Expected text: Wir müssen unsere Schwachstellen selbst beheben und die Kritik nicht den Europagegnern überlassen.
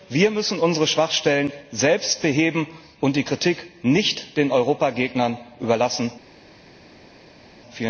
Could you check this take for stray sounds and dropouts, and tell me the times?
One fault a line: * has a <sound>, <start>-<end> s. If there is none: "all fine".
all fine